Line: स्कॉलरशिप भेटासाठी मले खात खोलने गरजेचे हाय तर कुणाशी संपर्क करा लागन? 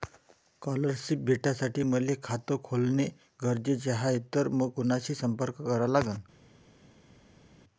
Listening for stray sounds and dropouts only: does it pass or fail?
pass